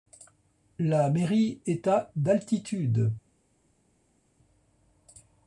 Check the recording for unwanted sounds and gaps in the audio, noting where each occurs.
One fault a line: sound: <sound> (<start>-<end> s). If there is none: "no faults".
no faults